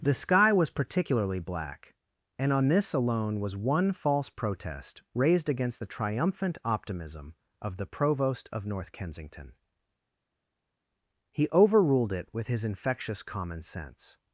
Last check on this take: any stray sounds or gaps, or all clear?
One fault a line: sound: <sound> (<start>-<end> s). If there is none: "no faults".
no faults